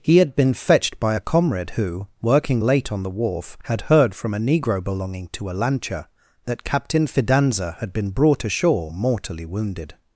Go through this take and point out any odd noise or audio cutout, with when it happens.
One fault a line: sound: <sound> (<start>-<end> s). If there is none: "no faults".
no faults